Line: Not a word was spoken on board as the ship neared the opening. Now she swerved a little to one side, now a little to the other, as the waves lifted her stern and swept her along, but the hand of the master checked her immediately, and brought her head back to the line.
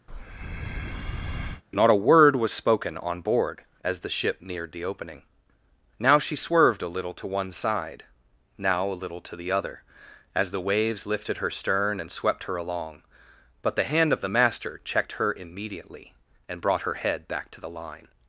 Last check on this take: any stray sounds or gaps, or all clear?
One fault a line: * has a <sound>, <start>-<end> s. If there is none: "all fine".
* has a breath, 0.1-1.6 s